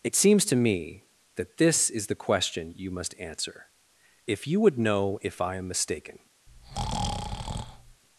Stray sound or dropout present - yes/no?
yes